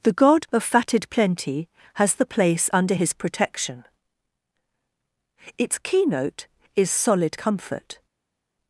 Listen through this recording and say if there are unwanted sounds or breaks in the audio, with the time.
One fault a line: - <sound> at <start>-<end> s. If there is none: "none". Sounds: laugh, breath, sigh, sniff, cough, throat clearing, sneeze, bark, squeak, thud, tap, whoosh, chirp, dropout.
none